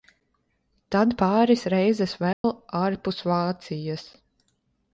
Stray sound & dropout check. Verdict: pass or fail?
fail